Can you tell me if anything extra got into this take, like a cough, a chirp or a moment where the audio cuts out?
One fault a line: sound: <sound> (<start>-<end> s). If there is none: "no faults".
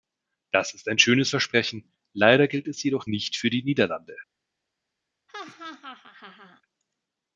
sound: laugh (5.3-6.6 s)